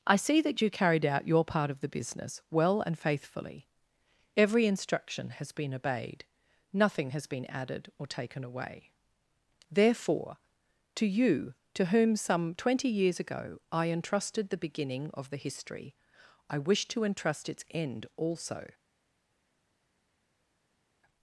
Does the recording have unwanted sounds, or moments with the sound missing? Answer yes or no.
no